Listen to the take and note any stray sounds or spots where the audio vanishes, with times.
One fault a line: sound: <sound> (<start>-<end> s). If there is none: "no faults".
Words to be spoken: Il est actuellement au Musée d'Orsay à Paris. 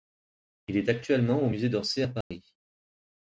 sound: dropout (2.2-2.3 s)